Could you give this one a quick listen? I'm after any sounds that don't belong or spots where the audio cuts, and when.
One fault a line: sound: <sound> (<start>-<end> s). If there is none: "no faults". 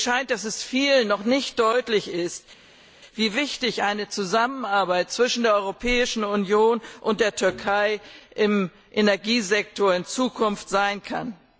no faults